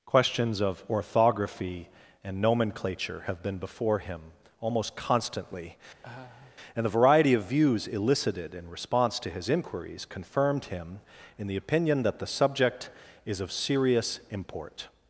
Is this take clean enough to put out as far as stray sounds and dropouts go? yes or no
no